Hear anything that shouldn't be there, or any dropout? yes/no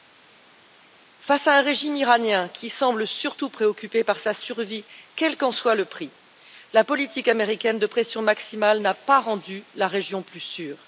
no